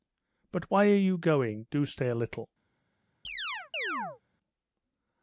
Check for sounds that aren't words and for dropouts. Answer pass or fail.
fail